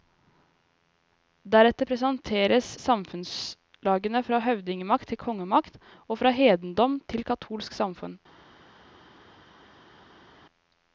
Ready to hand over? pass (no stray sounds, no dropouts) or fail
pass